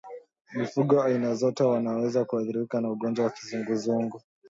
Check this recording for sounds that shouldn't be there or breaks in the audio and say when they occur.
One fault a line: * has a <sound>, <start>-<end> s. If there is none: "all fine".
all fine